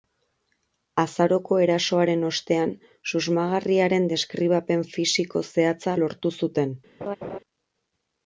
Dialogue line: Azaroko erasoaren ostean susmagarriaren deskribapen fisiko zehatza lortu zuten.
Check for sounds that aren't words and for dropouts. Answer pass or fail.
fail